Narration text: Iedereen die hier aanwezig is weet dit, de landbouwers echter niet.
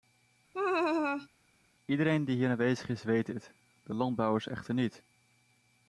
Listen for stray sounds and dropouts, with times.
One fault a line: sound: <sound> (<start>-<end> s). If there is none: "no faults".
sound: laugh (0.5-1.3 s)